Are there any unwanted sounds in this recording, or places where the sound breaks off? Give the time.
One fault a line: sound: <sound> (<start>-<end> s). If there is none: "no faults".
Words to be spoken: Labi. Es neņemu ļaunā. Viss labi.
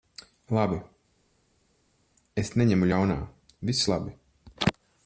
no faults